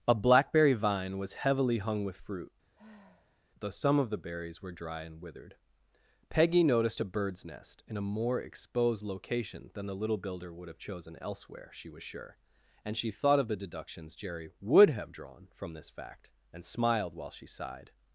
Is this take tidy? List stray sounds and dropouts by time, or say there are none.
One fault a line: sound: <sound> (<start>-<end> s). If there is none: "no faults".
sound: sigh (2.8-3.4 s)